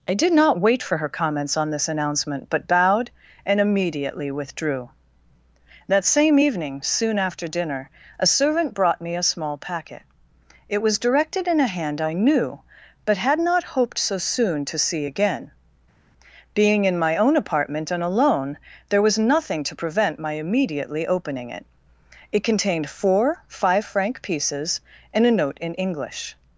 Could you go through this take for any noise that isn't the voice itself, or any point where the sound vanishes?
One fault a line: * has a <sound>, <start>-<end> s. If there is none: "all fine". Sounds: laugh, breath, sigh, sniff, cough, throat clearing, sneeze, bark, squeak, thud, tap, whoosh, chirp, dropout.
all fine